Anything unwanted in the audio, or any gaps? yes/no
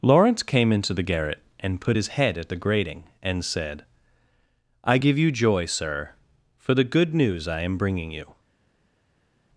no